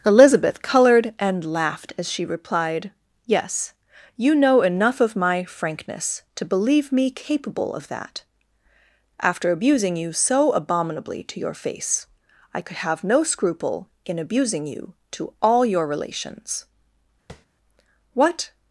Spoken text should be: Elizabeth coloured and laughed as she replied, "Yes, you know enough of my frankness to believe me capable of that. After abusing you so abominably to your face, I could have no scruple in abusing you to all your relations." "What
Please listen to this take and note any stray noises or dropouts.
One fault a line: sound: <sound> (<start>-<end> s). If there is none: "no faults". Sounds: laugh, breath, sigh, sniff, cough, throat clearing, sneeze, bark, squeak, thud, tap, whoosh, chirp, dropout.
sound: tap (17.3-17.5 s)